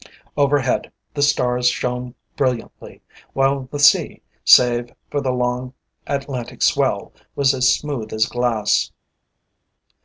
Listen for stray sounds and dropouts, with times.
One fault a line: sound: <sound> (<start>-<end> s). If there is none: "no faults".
no faults